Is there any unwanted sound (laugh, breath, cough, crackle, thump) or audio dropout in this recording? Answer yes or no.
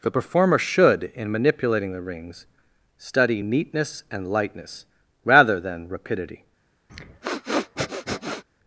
yes